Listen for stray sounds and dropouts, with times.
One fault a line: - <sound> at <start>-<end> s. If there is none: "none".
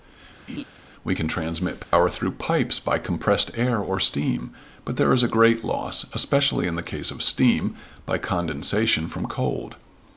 - laugh at 0.5-0.6 s
- dropout at 1.8-1.9 s